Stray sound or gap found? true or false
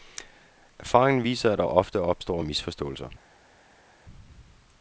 false